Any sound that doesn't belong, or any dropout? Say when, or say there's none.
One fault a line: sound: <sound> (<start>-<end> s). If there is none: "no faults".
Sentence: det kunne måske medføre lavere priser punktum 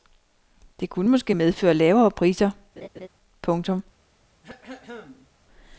sound: laugh (2.8-3.1 s)
sound: throat clearing (4.4-5.3 s)